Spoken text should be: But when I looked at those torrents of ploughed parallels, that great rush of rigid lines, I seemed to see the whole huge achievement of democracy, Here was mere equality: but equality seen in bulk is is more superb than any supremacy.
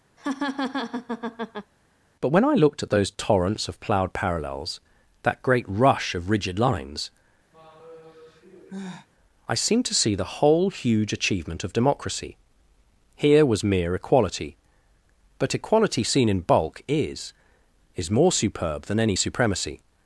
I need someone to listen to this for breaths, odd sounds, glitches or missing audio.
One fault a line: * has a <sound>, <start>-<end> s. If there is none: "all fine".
* has a laugh, 0.2-1.7 s
* has a sigh, 7.5-9.1 s